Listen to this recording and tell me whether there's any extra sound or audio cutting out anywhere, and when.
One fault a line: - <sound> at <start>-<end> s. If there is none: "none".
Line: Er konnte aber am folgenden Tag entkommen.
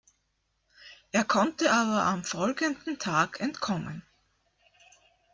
none